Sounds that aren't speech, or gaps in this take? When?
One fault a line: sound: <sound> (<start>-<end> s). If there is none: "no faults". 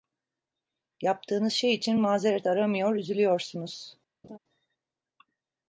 sound: laugh (4.2-4.4 s)